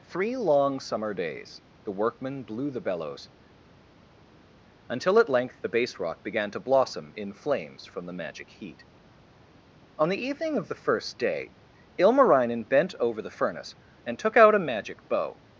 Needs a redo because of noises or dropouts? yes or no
no